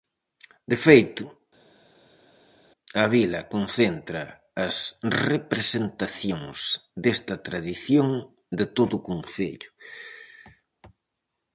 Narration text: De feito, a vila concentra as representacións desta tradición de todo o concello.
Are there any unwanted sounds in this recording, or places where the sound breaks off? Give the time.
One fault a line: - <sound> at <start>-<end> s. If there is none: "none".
none